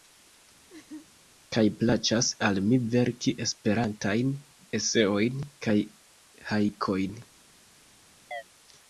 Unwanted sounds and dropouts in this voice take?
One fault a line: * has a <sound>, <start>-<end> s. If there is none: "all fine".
* has a laugh, 0.7-1.1 s
* has a chirp, 8.3-8.4 s